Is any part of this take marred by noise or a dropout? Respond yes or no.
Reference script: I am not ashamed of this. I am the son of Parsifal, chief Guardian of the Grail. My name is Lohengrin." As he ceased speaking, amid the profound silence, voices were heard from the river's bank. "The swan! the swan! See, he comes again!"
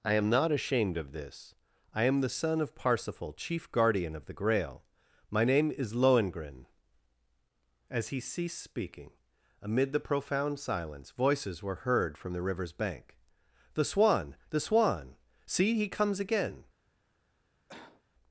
yes